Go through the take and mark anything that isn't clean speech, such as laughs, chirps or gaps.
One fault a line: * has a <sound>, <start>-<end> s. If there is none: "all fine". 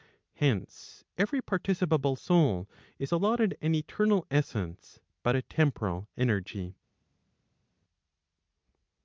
all fine